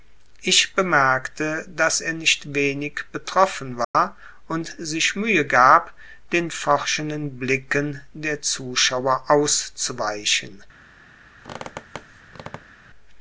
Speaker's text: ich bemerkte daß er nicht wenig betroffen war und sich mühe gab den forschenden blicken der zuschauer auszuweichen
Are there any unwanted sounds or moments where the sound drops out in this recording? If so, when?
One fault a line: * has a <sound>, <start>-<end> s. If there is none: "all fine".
* has a dropout, 3.8-3.9 s
* has a squeak, 11.4-12.9 s